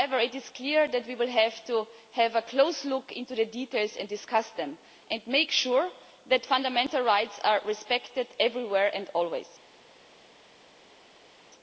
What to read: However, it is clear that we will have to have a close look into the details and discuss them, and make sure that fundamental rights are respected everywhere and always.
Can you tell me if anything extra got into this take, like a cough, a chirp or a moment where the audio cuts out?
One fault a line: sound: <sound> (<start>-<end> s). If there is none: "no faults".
no faults